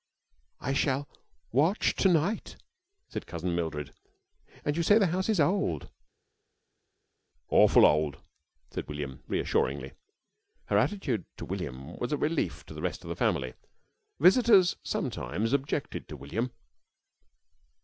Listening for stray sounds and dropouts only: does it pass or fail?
pass